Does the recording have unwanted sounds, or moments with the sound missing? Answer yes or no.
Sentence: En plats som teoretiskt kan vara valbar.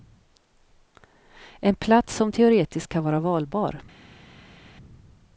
no